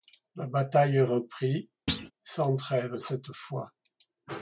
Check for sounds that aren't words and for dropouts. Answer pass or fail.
fail